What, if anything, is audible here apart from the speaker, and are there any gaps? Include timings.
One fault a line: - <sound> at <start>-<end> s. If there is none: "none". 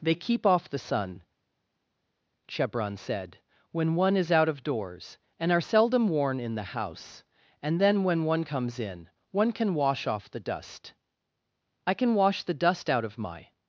none